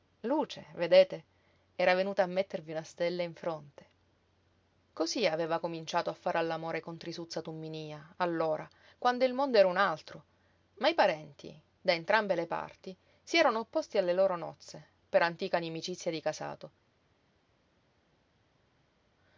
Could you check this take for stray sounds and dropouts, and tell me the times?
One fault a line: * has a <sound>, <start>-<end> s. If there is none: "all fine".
all fine